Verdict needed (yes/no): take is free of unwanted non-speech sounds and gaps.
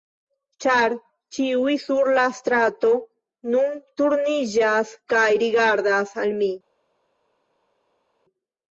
yes